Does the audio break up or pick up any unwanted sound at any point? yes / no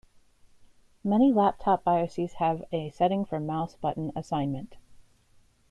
no